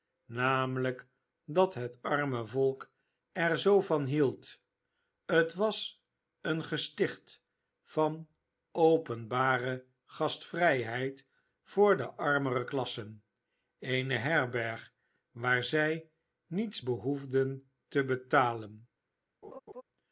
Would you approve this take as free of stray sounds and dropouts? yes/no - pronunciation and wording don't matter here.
no